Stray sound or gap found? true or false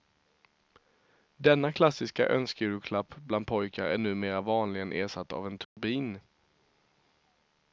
true